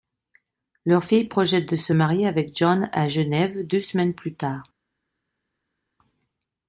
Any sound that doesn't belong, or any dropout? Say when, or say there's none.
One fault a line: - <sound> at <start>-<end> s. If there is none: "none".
none